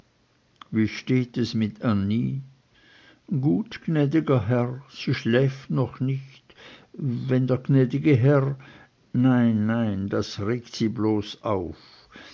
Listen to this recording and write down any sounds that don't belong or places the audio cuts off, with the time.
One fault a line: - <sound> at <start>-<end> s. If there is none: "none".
none